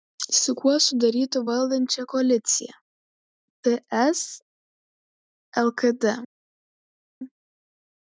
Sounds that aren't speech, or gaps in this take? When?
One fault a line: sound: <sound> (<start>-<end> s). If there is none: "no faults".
no faults